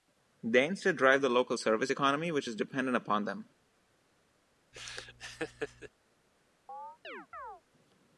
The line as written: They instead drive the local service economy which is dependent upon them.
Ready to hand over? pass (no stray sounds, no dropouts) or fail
fail